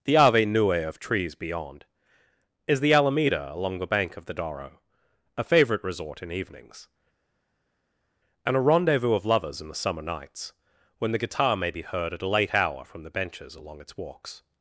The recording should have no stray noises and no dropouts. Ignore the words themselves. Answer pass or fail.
pass